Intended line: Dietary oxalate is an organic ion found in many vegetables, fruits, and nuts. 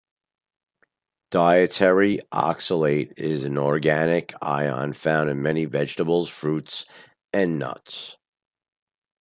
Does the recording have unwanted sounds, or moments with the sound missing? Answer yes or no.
no